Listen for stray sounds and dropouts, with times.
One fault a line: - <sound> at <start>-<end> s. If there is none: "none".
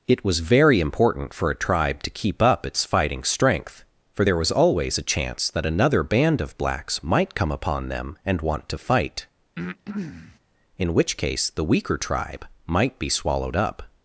- breath at 9.6-10.4 s